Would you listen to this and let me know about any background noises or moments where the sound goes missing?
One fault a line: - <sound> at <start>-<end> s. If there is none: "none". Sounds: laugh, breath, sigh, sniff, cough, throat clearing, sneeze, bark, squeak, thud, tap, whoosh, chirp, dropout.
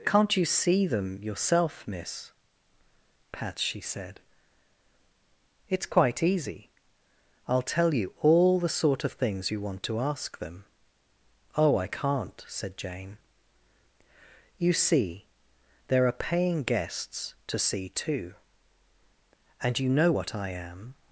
none